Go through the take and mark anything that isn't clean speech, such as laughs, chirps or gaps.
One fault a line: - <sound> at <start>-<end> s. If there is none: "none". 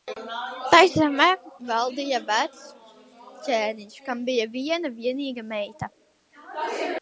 none